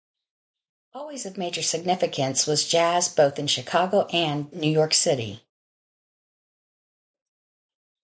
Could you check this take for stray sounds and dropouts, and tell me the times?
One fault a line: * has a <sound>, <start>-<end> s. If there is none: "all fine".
all fine